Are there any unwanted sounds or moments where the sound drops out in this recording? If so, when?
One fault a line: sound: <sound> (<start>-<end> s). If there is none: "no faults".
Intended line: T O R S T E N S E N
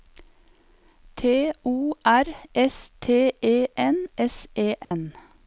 sound: dropout (4.8-4.9 s)